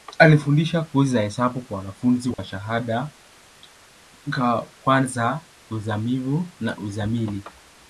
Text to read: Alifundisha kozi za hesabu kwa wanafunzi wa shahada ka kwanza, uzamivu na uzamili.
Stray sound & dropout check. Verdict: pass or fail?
fail